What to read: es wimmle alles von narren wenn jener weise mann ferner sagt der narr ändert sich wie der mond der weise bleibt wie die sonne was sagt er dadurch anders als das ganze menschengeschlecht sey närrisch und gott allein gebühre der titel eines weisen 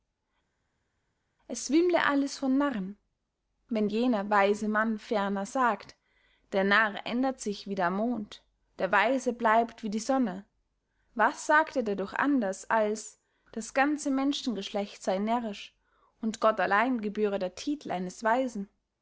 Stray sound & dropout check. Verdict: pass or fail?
pass